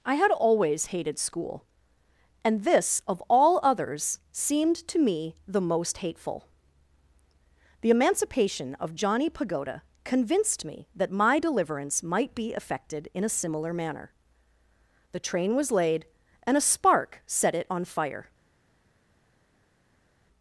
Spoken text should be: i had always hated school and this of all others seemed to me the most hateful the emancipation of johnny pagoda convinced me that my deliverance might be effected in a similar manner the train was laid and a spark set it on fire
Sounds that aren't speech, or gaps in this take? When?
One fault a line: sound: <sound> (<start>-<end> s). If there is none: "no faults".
no faults